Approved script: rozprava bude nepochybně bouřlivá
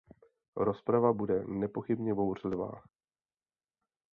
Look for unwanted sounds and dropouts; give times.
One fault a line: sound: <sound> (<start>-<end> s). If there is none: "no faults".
no faults